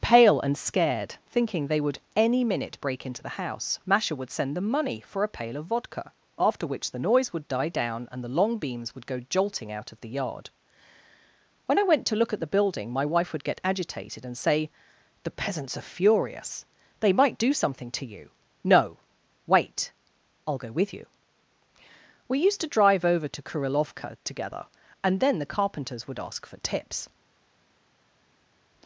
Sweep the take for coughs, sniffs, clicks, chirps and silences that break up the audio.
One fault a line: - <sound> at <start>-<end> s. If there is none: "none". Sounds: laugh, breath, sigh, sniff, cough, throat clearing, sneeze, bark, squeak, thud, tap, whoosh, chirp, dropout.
none